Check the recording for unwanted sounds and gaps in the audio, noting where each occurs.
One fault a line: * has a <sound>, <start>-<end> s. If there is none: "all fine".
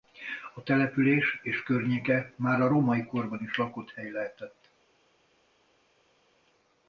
all fine